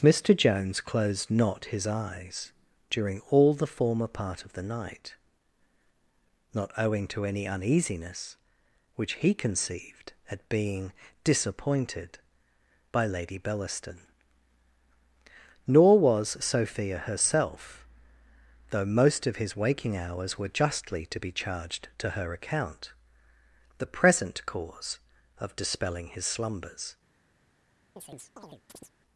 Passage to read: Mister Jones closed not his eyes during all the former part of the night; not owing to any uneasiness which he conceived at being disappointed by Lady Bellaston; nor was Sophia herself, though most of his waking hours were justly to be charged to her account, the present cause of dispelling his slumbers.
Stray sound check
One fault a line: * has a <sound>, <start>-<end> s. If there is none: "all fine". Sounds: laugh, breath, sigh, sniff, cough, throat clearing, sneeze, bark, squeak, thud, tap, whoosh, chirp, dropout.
* has a chirp, 28.0-28.9 s